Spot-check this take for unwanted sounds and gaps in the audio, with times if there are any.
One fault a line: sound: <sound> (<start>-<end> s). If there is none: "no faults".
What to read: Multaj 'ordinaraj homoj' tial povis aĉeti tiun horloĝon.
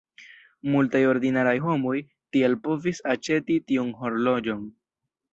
no faults